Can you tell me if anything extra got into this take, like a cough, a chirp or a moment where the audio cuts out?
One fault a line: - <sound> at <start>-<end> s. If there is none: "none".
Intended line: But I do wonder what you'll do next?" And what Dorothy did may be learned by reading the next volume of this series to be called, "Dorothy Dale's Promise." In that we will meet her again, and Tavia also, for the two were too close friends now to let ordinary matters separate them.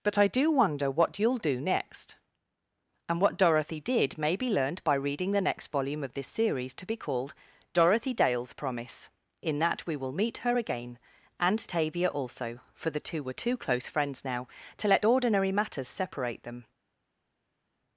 none